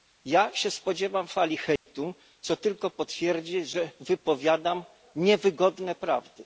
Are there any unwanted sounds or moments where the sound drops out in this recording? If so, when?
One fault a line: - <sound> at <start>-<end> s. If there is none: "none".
- dropout at 1.8-1.9 s